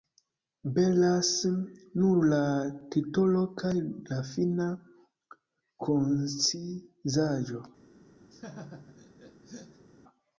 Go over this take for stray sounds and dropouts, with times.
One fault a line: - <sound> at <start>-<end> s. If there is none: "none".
- laugh at 8.3-9.9 s